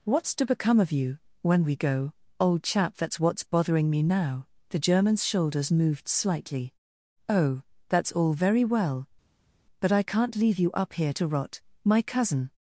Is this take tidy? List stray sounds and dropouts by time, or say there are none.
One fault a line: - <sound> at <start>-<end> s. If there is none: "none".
none